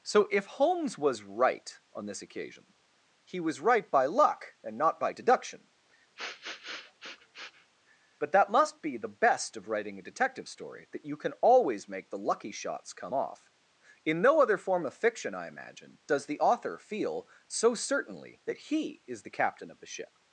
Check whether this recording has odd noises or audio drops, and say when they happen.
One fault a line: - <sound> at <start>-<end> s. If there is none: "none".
- sniff at 6.2-7.7 s